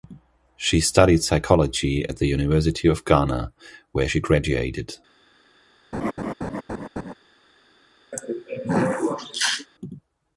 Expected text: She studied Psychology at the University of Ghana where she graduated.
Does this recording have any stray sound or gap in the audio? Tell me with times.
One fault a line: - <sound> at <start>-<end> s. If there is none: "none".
- laugh at 5.9-7.1 s
- throat clearing at 8.1-9.7 s